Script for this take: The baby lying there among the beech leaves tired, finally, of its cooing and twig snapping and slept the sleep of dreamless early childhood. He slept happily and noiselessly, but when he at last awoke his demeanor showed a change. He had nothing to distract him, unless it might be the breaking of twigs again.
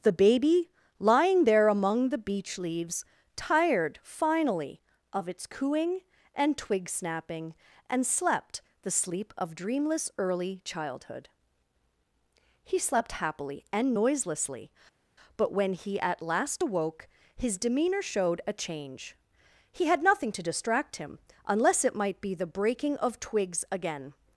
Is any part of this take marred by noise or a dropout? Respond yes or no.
no